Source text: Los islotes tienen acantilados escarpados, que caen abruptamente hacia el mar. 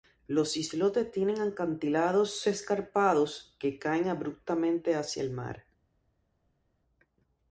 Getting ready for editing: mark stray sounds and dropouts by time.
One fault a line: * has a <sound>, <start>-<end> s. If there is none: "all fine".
all fine